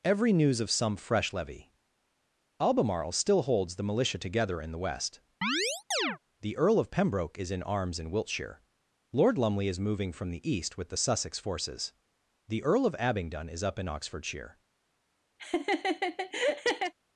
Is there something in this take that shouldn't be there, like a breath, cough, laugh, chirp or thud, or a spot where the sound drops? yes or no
yes